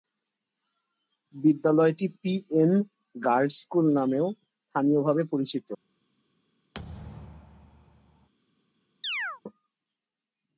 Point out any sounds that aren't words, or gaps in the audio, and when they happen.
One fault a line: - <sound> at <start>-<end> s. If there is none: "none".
- thud at 6.7-8.3 s
- chirp at 9.0-9.4 s